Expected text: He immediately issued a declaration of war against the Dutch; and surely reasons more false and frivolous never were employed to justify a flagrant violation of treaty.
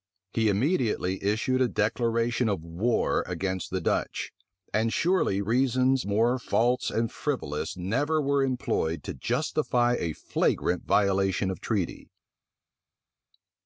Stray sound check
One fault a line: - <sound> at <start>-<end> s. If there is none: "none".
none